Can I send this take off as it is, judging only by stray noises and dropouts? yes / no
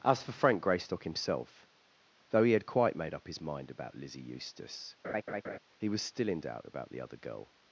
no